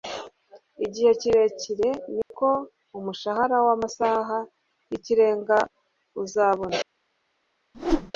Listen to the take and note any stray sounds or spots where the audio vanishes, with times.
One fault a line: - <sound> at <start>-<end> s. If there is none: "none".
- dropout at 2.2-2.3 s
- whoosh at 7.7-8.1 s